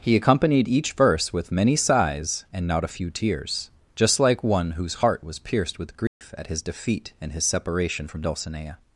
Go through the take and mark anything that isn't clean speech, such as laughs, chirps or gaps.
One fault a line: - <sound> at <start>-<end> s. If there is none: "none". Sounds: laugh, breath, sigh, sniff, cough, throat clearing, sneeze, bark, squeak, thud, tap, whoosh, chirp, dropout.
- dropout at 6.1-6.2 s